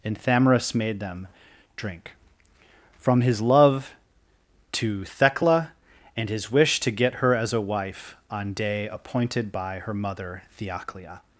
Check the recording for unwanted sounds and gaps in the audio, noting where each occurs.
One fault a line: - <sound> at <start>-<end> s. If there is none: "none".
none